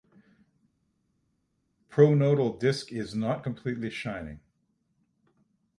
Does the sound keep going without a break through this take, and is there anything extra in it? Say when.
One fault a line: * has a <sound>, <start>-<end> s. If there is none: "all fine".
all fine